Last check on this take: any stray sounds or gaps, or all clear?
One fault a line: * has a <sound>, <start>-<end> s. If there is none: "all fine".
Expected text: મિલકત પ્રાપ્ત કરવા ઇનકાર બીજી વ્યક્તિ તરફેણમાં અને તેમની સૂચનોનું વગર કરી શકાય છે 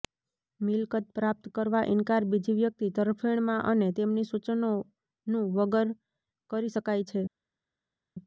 all fine